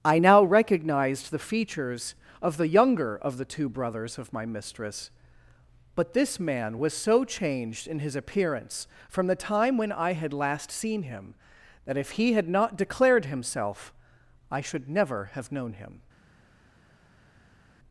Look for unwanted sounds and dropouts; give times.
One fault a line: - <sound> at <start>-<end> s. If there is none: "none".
none